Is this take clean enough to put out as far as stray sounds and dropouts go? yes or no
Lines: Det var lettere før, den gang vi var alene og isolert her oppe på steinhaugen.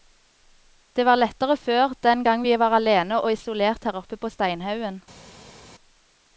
yes